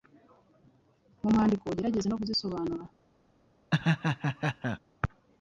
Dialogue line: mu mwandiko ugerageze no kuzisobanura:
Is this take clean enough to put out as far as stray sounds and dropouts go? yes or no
no